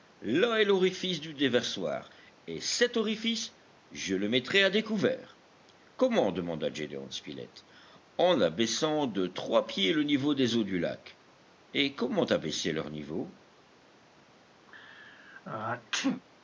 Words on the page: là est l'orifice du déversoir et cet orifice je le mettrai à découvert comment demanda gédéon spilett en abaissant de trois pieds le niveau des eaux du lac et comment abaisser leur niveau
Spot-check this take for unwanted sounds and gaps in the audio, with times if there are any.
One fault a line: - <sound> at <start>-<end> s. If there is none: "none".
- sneeze at 14.7-16.2 s